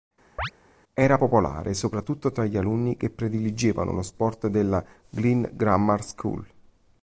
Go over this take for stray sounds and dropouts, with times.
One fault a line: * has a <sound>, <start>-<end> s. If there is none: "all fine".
* has a chirp, 0.4-0.5 s